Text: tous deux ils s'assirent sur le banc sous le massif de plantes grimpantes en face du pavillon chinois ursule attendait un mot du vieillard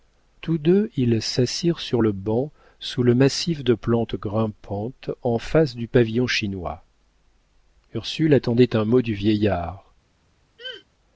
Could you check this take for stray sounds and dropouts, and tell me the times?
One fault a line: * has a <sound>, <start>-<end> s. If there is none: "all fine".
* has a throat clearing, 10.6-10.8 s